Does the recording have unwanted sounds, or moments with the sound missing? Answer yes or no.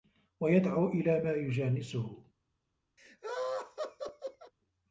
yes